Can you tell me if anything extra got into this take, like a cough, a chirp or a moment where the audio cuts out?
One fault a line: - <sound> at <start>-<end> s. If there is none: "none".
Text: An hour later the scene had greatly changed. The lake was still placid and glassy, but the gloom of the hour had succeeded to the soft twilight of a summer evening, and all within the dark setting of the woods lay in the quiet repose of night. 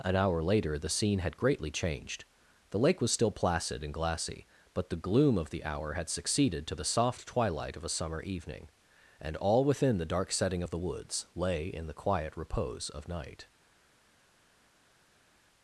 none